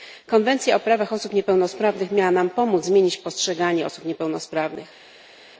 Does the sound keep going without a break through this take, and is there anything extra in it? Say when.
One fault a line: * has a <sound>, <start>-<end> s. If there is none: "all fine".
all fine